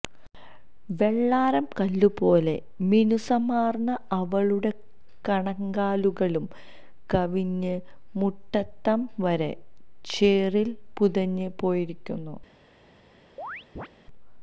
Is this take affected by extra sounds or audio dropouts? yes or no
yes